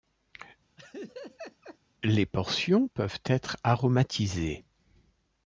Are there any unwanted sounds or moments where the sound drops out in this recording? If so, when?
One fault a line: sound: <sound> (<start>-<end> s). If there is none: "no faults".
sound: laugh (0.8-1.8 s)